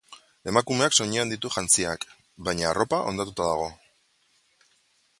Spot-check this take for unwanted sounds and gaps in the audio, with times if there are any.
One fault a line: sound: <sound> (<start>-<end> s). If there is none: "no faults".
no faults